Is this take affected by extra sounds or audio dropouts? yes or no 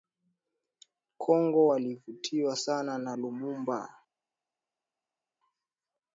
no